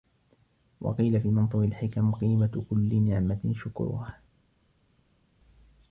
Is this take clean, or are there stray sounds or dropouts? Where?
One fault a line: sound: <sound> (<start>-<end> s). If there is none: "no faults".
no faults